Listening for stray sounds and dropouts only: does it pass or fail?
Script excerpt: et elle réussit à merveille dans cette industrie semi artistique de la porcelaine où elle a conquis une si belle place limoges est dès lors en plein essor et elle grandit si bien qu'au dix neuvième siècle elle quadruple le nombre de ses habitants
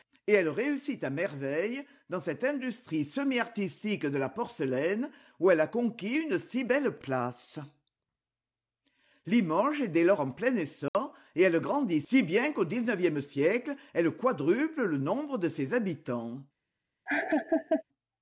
fail